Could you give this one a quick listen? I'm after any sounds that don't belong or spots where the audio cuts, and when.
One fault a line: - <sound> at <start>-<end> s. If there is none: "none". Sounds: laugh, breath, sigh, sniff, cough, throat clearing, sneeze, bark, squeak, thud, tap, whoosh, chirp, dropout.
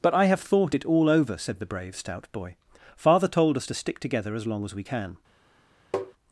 - tap at 5.9-6.1 s